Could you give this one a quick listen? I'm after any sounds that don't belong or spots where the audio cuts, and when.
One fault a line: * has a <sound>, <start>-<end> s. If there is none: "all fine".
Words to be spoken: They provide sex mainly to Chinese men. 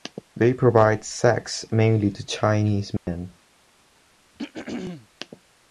* has a dropout, 3.0-3.1 s
* has a throat clearing, 4.4-5.1 s